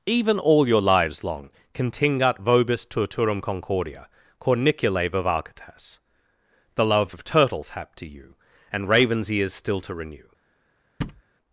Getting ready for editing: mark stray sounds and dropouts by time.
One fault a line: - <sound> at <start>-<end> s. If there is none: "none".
- thud at 11.0-11.2 s